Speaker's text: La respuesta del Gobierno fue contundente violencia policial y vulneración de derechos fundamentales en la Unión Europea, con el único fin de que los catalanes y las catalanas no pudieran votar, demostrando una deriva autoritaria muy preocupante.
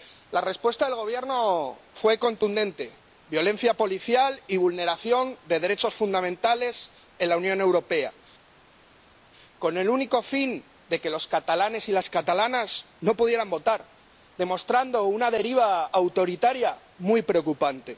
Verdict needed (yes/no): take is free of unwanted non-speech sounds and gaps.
yes